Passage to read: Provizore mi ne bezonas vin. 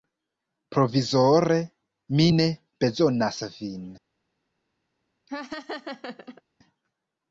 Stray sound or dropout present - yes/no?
yes